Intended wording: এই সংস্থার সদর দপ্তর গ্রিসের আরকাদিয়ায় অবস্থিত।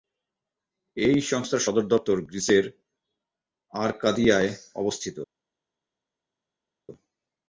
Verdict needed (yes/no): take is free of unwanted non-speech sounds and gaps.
yes